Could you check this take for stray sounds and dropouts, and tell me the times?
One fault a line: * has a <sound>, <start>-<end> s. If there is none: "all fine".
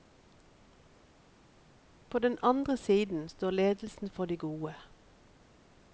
all fine